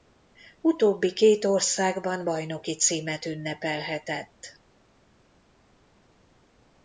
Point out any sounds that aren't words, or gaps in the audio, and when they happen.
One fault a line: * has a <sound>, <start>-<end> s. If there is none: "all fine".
all fine